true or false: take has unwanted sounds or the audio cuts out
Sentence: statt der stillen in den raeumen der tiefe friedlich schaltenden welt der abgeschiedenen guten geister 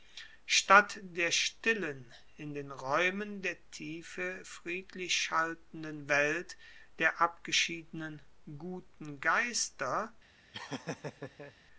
true